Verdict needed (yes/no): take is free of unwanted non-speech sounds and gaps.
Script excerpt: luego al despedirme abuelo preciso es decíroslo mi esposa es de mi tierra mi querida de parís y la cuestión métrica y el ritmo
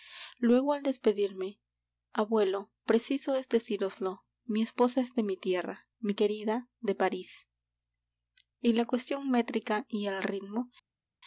yes